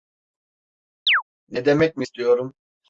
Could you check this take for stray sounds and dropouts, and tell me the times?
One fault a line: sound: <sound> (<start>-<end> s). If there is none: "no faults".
sound: chirp (1.1-1.2 s)